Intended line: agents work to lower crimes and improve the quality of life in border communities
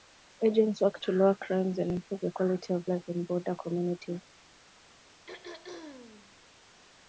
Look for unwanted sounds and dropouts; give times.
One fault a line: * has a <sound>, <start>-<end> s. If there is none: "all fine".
* has a throat clearing, 5.3-6.4 s